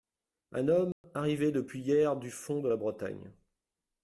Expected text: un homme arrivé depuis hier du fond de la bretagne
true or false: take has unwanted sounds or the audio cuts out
true